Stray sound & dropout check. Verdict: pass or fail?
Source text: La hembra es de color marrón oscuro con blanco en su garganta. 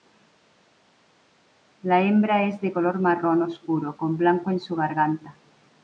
pass